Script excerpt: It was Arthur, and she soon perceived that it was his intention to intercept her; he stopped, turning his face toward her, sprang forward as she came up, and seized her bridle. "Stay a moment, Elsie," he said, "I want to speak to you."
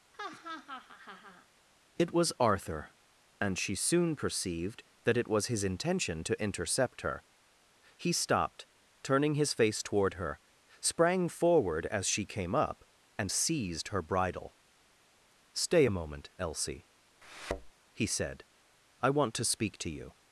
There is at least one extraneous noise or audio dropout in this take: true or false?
true